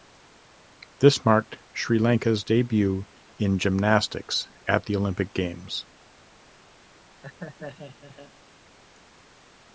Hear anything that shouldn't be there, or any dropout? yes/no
yes